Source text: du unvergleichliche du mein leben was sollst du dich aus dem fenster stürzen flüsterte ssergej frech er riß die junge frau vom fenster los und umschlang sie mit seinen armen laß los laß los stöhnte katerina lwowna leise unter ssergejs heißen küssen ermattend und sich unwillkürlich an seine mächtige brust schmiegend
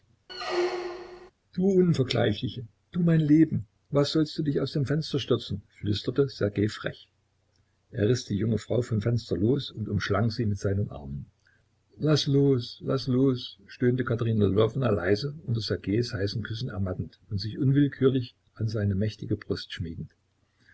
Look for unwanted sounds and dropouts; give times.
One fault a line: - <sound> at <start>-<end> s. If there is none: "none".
- squeak at 0.3-1.3 s